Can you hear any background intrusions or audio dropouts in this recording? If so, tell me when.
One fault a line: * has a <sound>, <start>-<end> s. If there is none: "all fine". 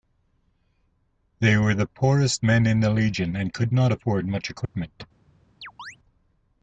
* has a dropout, 4.6-4.7 s
* has a chirp, 5.6-6.0 s